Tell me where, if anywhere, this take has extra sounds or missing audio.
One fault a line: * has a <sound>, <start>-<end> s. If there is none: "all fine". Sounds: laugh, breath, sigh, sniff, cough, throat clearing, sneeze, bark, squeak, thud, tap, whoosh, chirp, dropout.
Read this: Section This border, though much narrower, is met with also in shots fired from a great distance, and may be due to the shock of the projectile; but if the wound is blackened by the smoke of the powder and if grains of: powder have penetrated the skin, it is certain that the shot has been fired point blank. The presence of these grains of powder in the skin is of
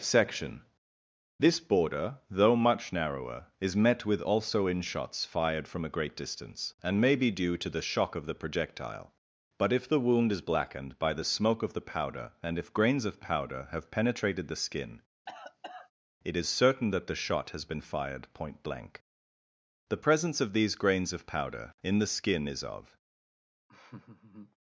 * has a cough, 15.3-15.9 s
* has a laugh, 23.7-24.6 s